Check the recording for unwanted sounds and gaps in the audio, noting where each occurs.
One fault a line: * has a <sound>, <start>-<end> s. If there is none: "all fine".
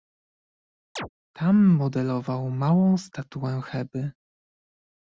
* has a chirp, 1.0-1.1 s